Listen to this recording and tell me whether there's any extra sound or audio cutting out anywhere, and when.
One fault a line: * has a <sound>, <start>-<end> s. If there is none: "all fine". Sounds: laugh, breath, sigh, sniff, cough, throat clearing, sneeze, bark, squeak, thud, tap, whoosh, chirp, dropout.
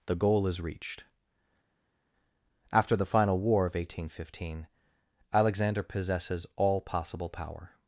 all fine